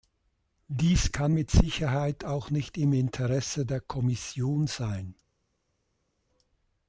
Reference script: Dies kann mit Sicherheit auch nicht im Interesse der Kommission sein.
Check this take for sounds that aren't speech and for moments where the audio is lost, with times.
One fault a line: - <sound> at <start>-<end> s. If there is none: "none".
none